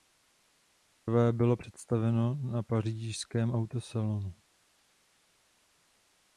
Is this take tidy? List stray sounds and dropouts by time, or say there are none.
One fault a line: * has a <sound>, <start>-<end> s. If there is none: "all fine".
all fine